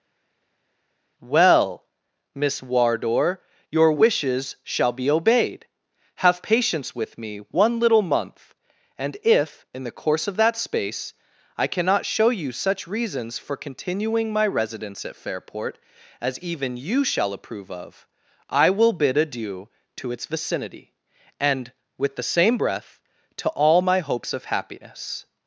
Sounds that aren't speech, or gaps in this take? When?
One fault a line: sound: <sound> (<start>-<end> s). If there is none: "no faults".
no faults